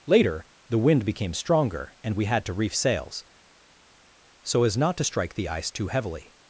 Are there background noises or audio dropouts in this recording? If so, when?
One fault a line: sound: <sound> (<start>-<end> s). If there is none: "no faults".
no faults